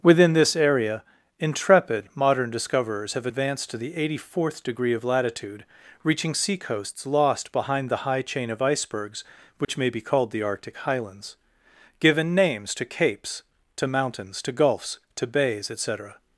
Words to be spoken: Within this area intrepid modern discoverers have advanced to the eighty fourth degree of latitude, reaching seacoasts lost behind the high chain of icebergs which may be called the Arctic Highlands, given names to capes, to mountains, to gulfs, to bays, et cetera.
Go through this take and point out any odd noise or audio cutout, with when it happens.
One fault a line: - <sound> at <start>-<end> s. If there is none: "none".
- dropout at 9.6-9.7 s